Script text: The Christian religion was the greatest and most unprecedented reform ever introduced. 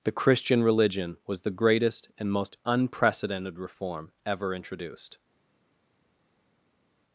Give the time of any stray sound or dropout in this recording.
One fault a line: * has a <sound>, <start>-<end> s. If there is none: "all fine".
all fine